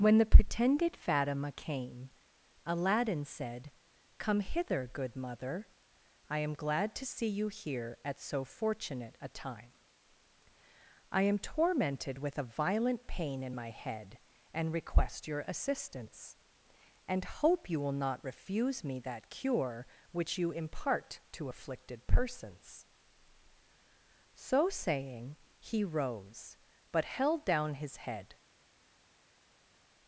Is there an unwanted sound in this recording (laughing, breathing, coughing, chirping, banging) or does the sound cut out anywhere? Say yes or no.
no